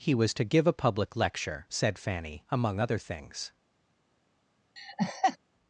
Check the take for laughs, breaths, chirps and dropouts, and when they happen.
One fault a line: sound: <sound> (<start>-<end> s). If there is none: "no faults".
sound: laugh (4.8-5.4 s)